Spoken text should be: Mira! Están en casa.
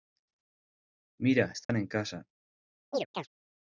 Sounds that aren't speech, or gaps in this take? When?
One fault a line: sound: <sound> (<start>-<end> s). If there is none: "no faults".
sound: dropout (1.6-1.7 s)
sound: chirp (2.9-3.3 s)